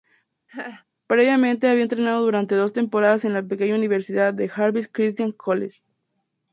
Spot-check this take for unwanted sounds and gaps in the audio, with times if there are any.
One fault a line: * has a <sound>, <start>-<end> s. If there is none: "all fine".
* has a laugh, 0.5-0.8 s